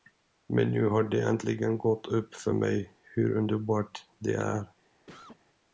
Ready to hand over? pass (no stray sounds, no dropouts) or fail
fail